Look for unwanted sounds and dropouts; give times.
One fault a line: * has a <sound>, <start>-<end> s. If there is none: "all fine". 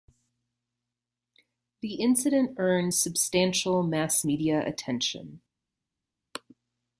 all fine